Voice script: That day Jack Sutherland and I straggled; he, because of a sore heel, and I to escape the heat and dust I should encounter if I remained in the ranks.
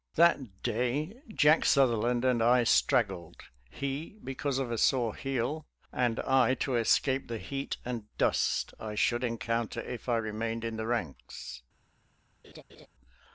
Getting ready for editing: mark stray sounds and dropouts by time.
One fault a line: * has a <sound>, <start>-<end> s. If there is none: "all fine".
* has a laugh, 12.4-12.9 s